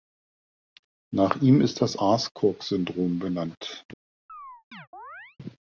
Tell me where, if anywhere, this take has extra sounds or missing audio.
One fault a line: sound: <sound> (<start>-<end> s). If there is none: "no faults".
sound: chirp (4.3-5.4 s)